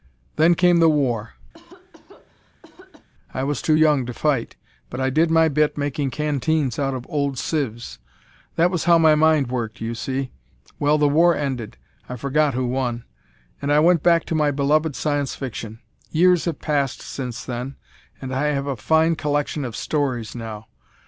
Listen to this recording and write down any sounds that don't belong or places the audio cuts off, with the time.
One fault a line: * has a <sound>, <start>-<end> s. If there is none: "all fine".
* has a cough, 1.5-3.1 s